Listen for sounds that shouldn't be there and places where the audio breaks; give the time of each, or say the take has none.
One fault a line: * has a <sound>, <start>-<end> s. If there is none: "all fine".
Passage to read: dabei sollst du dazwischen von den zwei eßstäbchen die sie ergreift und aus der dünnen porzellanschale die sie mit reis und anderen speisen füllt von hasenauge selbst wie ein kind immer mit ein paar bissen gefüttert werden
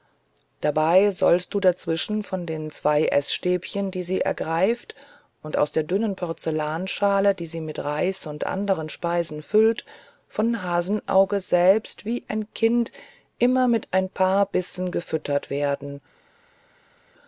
all fine